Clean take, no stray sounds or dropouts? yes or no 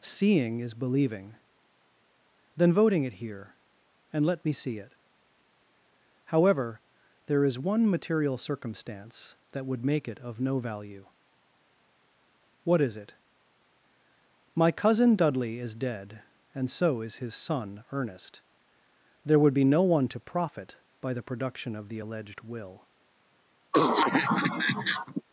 no